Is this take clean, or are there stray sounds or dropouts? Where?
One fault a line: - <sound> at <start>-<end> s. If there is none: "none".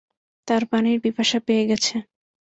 none